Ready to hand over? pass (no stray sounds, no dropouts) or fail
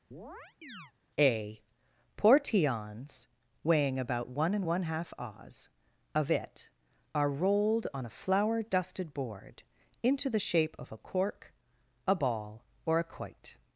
fail